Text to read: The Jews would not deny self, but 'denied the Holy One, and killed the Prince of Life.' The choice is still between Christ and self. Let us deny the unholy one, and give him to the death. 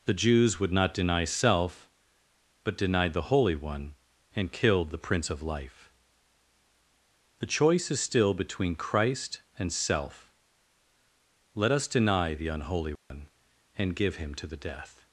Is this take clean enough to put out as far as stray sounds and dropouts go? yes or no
no